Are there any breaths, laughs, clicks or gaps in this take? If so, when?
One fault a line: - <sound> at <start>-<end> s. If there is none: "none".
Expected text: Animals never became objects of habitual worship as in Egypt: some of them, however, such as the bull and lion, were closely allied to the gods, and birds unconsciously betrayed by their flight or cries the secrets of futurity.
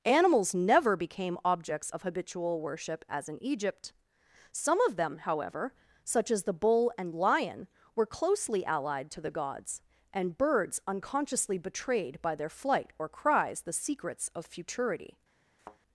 - thud at 15.6-15.8 s